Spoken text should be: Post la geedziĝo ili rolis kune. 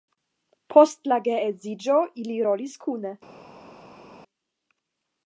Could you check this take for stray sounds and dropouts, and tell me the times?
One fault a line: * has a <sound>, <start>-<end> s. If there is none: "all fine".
all fine